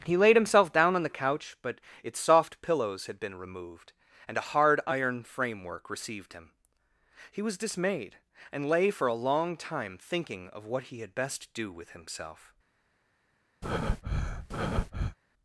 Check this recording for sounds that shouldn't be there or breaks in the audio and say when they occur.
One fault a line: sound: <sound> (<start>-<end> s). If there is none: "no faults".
sound: breath (13.6-15.2 s)